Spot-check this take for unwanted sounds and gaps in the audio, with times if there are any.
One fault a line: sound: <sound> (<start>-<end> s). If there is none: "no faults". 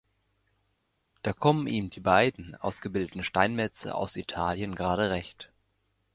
no faults